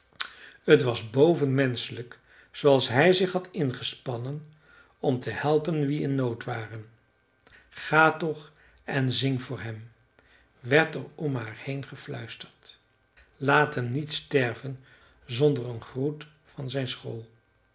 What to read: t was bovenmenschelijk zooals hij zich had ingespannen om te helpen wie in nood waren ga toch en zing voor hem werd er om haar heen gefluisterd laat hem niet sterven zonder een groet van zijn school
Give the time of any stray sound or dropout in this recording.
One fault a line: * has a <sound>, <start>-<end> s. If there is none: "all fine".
all fine